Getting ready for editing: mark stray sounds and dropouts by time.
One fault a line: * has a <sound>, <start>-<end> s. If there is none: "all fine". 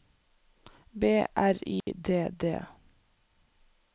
* has a dropout, 1.8-1.9 s